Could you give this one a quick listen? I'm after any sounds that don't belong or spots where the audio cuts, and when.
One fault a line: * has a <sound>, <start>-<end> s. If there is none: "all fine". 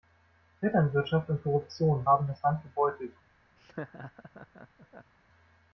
* has a laugh, 3.6-5.1 s